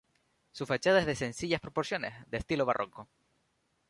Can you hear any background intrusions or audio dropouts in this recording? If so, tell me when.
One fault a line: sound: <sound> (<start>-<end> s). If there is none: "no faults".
no faults